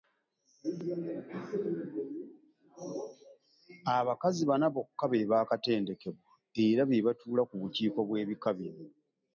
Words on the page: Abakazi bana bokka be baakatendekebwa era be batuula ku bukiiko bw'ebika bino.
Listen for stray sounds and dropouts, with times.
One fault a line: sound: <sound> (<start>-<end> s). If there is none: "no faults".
no faults